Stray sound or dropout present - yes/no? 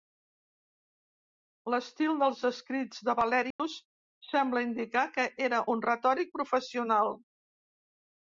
yes